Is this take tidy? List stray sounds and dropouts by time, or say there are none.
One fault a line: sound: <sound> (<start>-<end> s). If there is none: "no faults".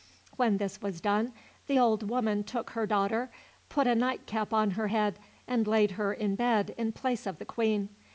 no faults